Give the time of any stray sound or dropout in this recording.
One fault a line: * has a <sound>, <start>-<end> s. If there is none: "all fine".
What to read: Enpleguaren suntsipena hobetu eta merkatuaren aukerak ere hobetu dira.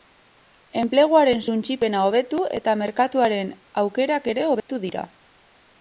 * has a dropout, 4.6-4.7 s